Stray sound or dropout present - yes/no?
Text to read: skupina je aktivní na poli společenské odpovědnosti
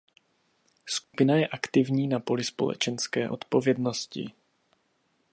yes